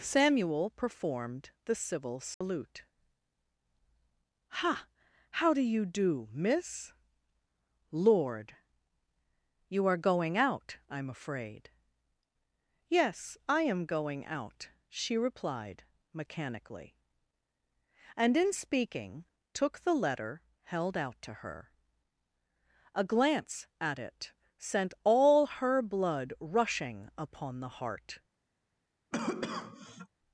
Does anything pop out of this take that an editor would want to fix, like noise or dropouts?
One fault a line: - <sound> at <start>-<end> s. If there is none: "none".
- dropout at 2.3-2.4 s
- cough at 29.1-30.1 s